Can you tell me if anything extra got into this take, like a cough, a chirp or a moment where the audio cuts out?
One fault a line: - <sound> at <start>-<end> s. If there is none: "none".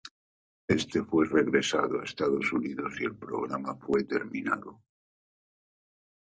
none